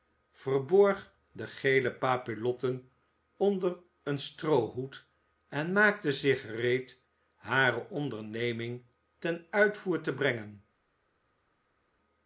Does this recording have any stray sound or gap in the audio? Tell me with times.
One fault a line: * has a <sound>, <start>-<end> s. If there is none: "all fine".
all fine